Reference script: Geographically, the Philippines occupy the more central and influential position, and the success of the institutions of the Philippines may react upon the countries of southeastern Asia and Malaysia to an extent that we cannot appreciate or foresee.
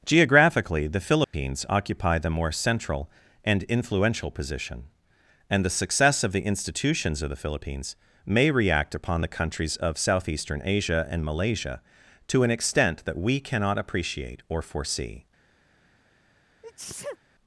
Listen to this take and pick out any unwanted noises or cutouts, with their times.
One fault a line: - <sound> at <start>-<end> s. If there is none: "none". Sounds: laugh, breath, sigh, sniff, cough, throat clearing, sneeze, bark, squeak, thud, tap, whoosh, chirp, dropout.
- dropout at 1.2-1.3 s
- sneeze at 16.6-17.2 s